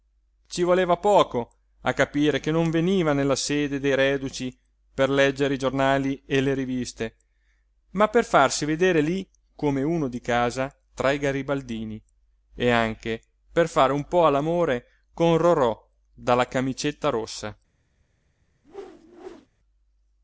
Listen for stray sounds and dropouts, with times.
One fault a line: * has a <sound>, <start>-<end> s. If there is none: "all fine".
* has a whoosh, 18.6-19.5 s